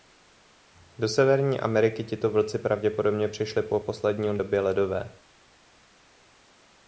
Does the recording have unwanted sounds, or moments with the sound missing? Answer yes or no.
no